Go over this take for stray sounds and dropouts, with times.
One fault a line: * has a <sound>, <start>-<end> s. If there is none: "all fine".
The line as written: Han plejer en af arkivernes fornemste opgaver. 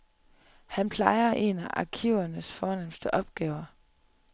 all fine